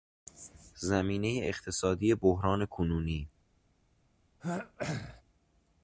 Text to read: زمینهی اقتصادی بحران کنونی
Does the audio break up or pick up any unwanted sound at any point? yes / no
yes